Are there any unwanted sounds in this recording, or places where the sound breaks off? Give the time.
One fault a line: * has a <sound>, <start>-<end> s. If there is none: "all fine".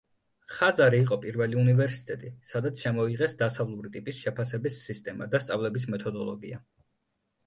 all fine